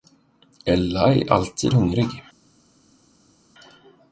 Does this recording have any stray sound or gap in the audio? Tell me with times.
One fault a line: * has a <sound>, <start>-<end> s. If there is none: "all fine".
all fine